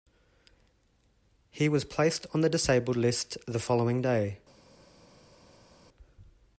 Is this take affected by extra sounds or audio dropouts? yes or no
no